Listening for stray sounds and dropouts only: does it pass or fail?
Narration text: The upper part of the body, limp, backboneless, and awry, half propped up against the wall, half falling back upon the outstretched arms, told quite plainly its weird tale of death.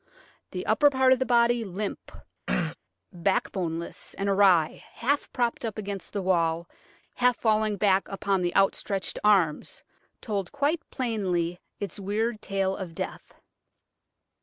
fail